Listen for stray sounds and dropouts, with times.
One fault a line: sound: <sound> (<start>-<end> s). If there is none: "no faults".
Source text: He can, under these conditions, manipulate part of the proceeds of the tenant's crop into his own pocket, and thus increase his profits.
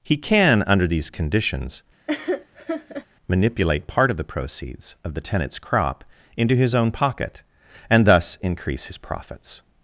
sound: laugh (2.1-3.1 s)